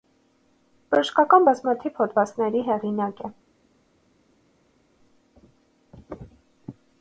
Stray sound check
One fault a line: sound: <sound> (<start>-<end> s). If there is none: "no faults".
no faults